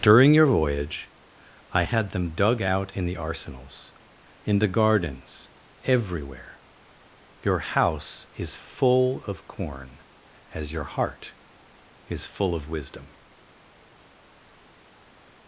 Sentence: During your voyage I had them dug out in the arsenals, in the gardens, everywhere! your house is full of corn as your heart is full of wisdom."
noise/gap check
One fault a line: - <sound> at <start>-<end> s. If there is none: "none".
none